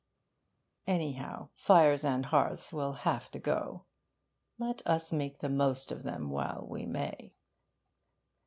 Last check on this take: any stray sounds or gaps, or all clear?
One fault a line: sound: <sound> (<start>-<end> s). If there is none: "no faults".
no faults